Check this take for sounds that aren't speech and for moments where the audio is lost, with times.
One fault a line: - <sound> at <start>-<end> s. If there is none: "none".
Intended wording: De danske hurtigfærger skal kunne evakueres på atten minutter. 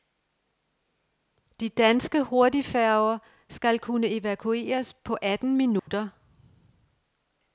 - dropout at 5.8-5.9 s